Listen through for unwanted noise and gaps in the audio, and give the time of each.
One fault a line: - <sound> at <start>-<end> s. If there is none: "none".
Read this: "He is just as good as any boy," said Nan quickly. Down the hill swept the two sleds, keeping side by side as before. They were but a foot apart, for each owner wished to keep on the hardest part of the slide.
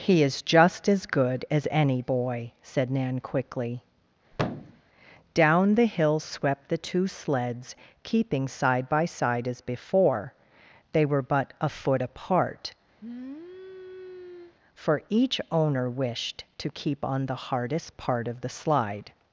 - thud at 4.3-4.8 s
- sniff at 13.0-14.5 s